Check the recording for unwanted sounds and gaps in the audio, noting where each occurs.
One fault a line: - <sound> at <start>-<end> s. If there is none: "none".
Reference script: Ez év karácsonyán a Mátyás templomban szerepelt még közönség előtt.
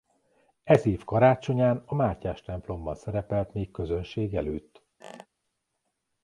- squeak at 5.0-5.3 s